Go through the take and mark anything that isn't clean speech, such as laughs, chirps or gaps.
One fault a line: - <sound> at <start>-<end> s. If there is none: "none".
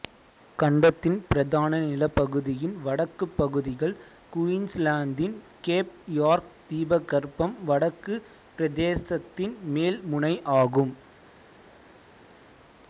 none